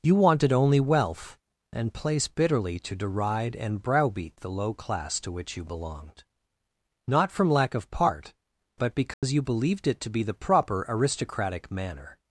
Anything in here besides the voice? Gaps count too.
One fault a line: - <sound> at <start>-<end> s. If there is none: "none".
- dropout at 9.1-9.2 s